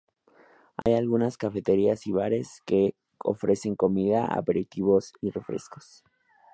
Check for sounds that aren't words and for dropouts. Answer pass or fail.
fail